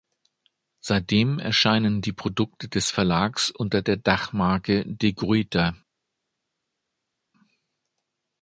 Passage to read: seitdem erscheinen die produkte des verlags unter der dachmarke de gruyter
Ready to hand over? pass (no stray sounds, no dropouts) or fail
pass